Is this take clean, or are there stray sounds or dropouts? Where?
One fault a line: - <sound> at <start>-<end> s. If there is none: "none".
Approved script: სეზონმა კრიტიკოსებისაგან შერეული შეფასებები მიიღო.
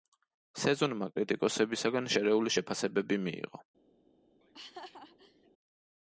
- laugh at 4.4-5.5 s